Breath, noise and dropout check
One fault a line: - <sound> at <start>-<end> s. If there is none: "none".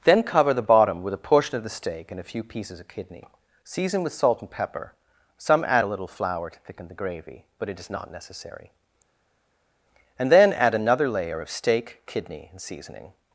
none